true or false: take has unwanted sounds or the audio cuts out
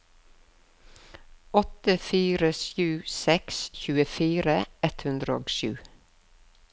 false